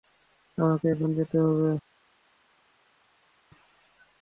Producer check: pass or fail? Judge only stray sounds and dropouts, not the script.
pass